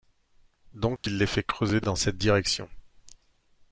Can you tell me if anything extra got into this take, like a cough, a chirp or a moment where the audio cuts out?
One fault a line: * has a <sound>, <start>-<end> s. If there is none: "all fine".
* has a dropout, 1.0-1.0 s